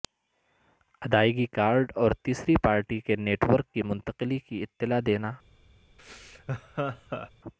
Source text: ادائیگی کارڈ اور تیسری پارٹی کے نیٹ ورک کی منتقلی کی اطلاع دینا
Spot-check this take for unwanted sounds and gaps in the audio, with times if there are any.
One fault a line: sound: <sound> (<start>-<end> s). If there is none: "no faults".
sound: laugh (6.0-7.3 s)